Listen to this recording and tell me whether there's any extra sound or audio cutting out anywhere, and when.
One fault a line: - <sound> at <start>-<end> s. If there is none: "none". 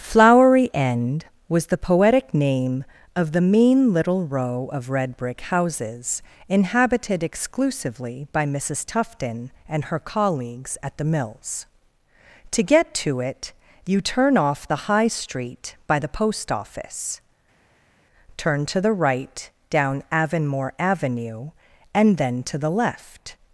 none